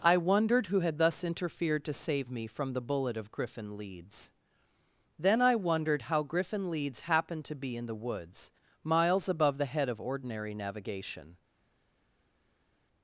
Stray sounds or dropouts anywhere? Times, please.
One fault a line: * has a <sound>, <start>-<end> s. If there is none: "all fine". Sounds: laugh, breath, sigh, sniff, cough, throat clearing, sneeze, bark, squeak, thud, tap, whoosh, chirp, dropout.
all fine